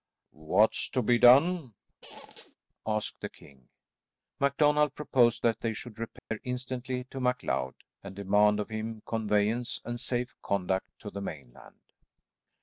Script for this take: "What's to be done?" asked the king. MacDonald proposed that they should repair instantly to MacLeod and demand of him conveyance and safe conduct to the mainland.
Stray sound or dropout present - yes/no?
yes